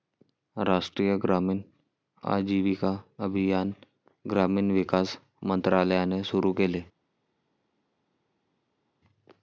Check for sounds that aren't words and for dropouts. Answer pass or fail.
pass